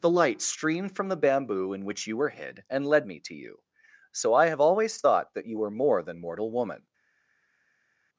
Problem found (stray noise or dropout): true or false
false